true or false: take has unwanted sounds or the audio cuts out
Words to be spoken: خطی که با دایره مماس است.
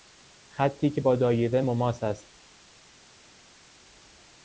false